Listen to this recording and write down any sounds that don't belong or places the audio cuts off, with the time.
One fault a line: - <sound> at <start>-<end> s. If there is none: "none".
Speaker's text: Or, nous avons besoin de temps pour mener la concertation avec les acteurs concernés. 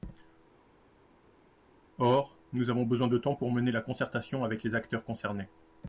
none